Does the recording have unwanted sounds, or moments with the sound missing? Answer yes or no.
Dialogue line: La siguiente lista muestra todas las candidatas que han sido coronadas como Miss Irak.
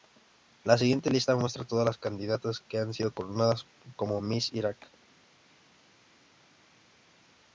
no